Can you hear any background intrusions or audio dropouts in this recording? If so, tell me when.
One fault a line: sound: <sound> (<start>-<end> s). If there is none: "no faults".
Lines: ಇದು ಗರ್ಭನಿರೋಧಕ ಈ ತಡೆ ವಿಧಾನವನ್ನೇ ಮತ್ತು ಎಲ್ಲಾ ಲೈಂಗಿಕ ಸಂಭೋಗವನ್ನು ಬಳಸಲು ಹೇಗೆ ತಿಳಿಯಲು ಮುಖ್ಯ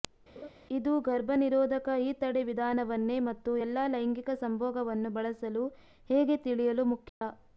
sound: laugh (0.4-0.5 s)
sound: dropout (7.1-7.2 s)